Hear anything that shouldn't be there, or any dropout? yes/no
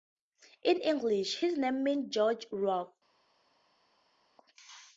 no